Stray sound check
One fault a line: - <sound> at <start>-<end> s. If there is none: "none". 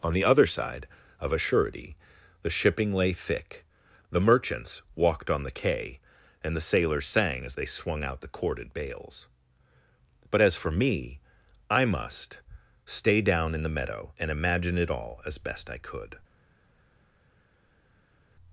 none